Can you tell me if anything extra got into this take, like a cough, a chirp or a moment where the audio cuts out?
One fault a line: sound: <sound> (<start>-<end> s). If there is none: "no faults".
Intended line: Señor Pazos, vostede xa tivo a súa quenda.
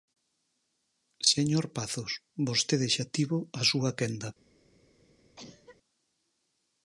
sound: cough (5.4-5.8 s)